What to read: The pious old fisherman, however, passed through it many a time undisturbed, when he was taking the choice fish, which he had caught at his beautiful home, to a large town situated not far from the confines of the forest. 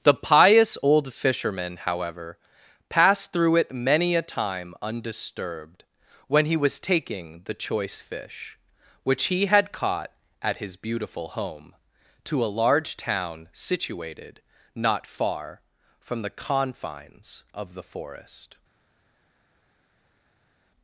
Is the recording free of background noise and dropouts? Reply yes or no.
yes